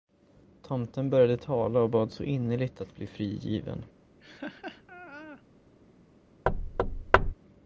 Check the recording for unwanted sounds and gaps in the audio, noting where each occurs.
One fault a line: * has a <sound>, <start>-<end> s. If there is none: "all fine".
* has a laugh, 4.2-5.4 s
* has a thud, 6.5-7.3 s